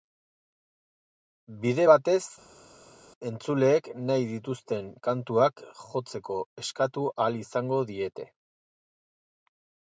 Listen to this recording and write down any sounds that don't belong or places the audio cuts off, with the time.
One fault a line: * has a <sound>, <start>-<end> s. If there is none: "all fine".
all fine